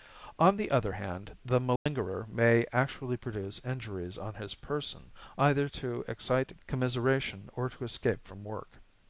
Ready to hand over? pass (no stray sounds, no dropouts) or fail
fail